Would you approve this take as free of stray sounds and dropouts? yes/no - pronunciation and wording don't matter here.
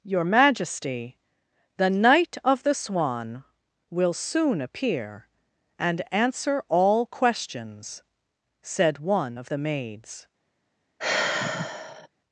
no